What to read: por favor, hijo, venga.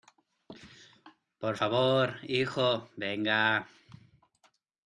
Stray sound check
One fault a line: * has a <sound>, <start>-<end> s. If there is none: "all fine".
all fine